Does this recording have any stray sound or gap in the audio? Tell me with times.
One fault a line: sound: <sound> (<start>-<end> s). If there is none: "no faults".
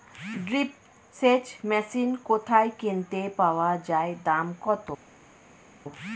no faults